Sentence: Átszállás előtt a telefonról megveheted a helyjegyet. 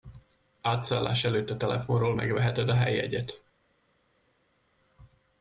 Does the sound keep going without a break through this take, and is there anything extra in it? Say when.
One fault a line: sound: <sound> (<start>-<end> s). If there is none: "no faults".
no faults